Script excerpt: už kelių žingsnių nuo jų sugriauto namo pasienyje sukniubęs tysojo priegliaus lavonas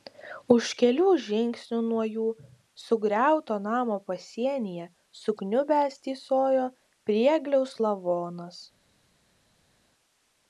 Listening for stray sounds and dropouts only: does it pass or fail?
pass